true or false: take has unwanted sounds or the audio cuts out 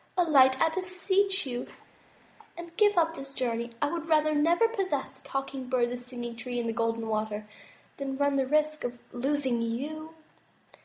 false